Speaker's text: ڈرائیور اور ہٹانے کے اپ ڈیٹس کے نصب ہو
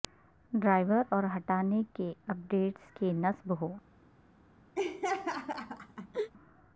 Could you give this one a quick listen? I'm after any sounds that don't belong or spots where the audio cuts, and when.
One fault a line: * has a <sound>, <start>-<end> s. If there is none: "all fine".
* has a laugh, 4.8-6.3 s